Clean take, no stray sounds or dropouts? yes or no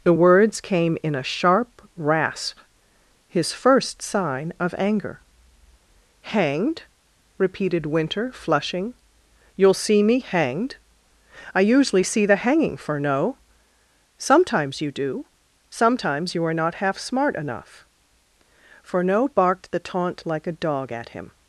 yes